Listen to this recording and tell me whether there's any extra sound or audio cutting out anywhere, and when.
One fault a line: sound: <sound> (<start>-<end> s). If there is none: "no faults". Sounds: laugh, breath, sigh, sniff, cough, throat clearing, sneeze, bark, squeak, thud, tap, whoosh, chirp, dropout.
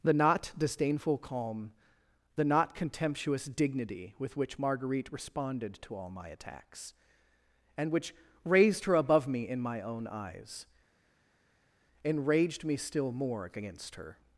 no faults